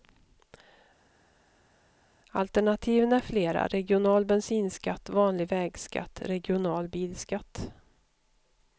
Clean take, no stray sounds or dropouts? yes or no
yes